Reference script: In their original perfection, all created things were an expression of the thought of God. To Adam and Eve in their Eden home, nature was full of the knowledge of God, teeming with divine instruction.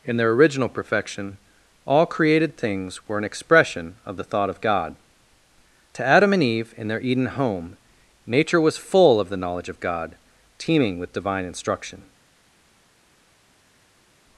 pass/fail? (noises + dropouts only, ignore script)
pass